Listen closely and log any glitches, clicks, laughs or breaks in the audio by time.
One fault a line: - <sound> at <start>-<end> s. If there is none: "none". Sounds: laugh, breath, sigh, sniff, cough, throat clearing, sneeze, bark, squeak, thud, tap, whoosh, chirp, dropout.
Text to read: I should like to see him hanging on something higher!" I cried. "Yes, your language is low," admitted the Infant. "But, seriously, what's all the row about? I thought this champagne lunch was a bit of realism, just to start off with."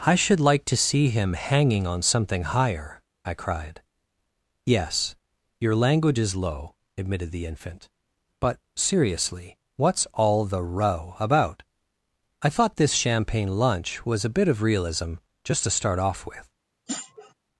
- sniff at 16.9-17.3 s